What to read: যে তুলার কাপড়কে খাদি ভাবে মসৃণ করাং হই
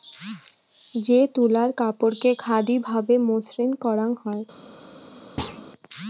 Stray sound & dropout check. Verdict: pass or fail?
fail